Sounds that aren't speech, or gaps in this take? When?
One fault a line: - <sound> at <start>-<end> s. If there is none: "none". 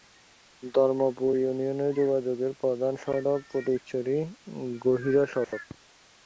- dropout at 5.4-5.5 s